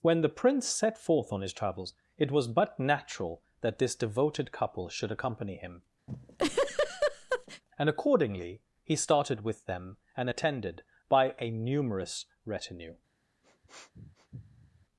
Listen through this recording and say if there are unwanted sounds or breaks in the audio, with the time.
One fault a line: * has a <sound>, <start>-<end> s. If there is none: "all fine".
* has a laugh, 6.1-7.6 s
* has a sniff, 13.4-14.9 s